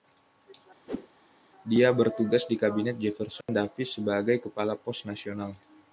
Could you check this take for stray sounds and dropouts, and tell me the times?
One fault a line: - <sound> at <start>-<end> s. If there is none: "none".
- whoosh at 0.9-1.1 s
- dropout at 3.4-3.5 s